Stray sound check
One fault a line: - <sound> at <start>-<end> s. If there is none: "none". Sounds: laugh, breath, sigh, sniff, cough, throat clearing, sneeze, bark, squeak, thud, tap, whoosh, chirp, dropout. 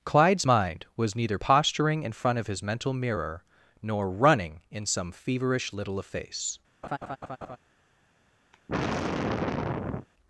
- laugh at 6.8-7.6 s
- sigh at 8.5-10.1 s